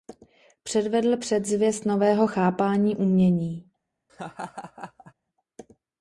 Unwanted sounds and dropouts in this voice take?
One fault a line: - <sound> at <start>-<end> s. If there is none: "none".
- laugh at 4.1-5.1 s